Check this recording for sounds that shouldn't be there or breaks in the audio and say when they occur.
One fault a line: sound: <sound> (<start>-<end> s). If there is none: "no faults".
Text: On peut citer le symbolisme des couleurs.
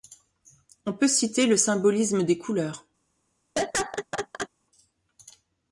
sound: laugh (3.6-4.5 s)